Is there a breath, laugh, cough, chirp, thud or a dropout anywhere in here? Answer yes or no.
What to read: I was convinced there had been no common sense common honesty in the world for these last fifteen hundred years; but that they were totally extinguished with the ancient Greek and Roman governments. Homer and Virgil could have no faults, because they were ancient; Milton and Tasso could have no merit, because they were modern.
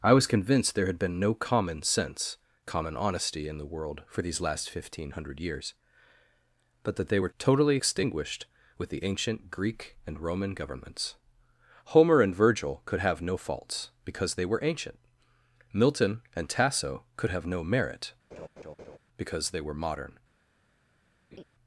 yes